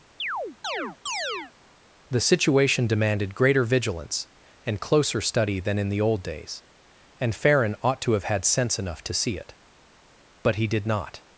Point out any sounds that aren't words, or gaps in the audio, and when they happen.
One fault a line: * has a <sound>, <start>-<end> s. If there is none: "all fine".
* has a chirp, 0.2-1.5 s